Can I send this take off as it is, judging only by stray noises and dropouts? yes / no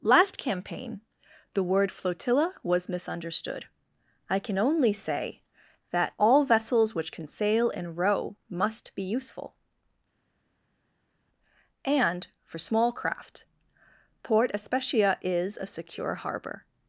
yes